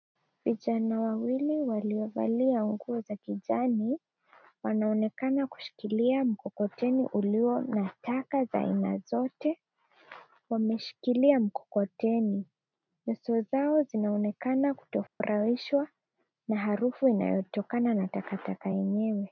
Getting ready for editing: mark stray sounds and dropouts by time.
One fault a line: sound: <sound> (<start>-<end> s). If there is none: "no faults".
sound: dropout (15.1-15.2 s)